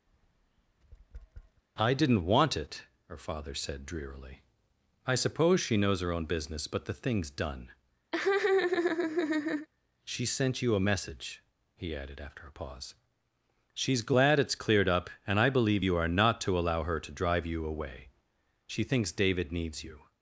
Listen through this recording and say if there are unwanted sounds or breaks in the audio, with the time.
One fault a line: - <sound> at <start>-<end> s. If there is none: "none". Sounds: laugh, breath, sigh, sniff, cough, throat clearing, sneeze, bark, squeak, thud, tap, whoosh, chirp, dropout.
- tap at 0.1-1.6 s
- laugh at 8.1-9.7 s